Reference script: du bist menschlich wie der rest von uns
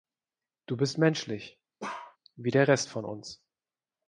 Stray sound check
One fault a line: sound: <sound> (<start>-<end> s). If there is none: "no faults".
sound: bark (1.8-2.2 s)